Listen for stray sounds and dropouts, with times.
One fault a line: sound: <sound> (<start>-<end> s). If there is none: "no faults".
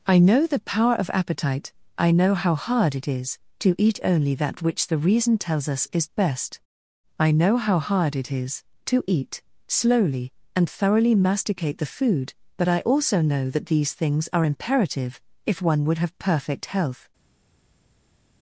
no faults